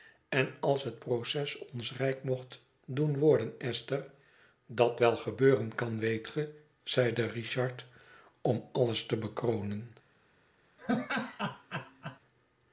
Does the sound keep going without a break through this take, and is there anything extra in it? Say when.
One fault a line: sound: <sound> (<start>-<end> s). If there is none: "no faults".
sound: laugh (10.8-12.2 s)